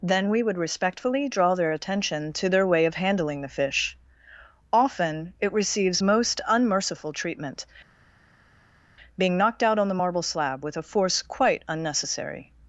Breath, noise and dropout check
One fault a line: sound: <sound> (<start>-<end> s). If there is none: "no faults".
no faults